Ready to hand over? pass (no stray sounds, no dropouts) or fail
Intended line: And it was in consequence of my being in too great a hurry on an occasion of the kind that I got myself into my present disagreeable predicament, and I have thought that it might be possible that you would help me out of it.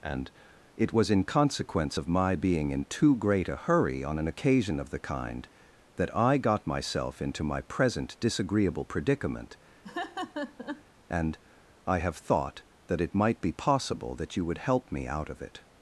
fail